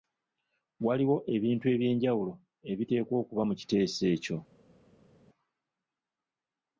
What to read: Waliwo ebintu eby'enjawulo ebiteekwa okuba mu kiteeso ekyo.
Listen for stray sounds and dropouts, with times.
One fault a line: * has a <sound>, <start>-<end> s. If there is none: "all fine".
all fine